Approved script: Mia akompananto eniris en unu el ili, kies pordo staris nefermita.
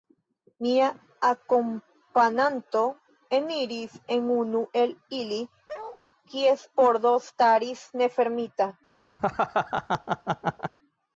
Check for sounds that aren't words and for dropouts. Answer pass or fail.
fail